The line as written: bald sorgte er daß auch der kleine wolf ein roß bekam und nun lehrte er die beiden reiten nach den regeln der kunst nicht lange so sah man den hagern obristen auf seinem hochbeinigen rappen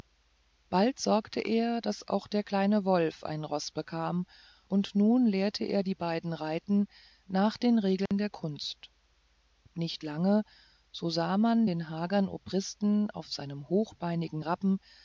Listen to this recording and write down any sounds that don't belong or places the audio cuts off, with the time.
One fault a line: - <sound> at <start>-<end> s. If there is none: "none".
- dropout at 8.1-8.1 s